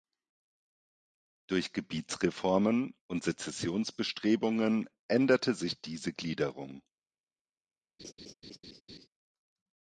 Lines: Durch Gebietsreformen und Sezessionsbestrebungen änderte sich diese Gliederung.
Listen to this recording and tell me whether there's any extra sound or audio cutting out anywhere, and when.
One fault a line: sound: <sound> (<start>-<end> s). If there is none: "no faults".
sound: laugh (8.0-9.1 s)